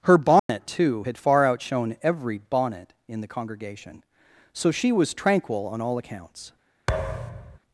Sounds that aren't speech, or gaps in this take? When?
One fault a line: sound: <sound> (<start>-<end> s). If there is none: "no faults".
sound: dropout (0.4-0.5 s)
sound: thud (6.9-7.6 s)